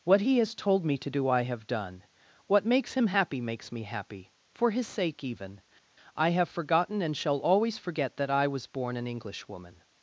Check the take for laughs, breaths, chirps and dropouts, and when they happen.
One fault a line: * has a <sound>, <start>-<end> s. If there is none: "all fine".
all fine